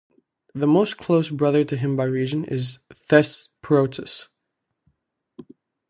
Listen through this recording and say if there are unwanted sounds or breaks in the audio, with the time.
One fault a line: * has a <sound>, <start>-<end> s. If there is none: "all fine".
all fine